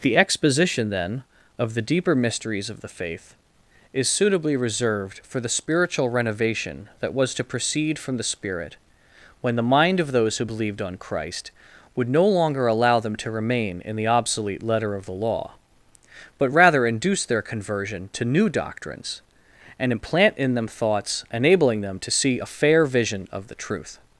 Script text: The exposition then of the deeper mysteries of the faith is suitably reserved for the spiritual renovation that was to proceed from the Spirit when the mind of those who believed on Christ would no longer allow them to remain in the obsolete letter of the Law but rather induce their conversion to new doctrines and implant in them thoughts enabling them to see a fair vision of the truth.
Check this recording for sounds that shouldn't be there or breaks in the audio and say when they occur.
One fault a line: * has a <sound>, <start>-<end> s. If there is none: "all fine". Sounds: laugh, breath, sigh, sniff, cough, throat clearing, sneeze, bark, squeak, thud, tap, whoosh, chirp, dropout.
all fine